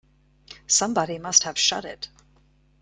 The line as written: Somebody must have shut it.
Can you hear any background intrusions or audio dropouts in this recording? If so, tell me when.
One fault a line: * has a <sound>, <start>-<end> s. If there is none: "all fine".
all fine